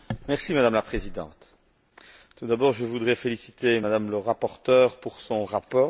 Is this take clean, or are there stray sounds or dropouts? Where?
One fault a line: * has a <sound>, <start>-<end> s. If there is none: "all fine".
all fine